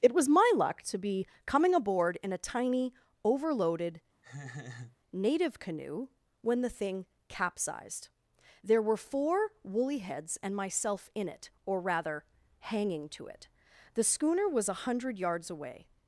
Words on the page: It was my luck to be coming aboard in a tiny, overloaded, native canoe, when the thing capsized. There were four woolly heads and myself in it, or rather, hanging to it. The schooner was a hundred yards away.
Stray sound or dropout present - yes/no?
yes